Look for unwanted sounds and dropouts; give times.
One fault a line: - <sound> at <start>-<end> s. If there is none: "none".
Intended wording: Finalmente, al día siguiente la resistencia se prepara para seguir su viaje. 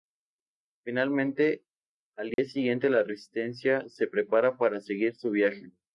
- dropout at 2.3-2.4 s